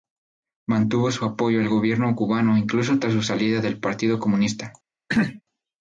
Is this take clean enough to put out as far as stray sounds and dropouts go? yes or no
no